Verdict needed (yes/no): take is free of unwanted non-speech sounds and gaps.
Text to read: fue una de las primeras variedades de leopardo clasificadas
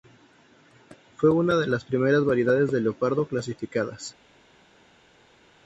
yes